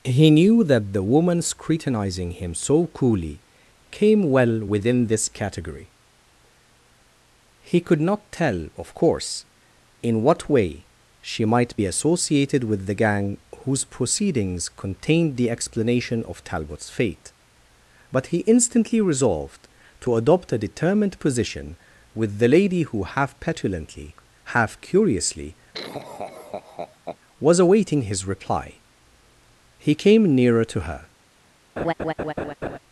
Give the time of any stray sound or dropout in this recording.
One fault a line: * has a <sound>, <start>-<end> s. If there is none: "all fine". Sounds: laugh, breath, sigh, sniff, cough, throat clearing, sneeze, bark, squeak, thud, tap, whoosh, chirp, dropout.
* has a laugh, 25.7-27.2 s
* has a laugh, 31.8-32.8 s